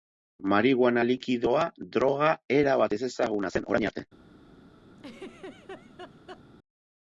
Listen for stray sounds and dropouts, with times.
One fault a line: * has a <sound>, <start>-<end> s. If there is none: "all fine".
* has a laugh, 5.0-6.4 s